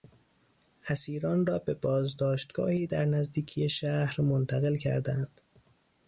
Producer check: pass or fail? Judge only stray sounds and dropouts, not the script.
pass